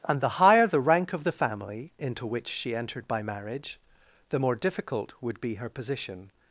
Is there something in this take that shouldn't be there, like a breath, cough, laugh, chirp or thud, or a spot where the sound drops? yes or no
no